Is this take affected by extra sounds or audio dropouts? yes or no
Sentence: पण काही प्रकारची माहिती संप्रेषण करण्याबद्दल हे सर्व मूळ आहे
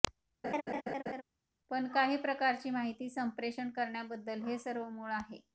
yes